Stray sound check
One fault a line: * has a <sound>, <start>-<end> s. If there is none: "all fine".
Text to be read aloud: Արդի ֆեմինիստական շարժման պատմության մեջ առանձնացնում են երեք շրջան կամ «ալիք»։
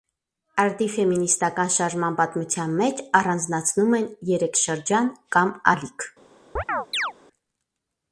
* has a chirp, 6.6-7.1 s